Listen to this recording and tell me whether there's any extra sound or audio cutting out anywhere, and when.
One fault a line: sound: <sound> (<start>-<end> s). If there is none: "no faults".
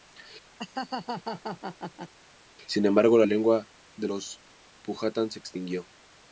sound: laugh (0.6-2.1 s)